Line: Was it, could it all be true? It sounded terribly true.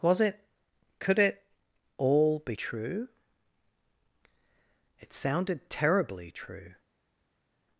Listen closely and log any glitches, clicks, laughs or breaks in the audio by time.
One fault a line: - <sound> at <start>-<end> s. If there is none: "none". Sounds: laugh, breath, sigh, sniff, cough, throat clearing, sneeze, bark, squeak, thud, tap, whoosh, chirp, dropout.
none